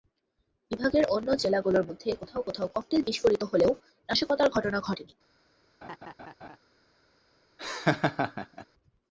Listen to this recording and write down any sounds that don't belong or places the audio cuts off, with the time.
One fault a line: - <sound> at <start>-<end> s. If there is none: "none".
- laugh at 5.8-6.6 s
- laugh at 7.6-8.7 s